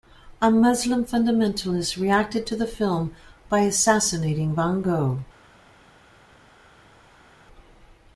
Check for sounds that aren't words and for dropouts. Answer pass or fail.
pass